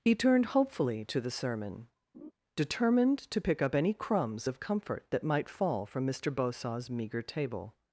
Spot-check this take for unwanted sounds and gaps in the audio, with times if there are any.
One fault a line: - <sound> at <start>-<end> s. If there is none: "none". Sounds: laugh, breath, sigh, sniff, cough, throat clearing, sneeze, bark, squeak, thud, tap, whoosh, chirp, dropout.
- laugh at 2.1-2.3 s